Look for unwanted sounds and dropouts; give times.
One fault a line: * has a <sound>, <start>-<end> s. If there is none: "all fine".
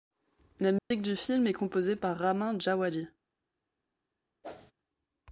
* has a dropout, 0.8-0.9 s
* has a whoosh, 4.4-4.7 s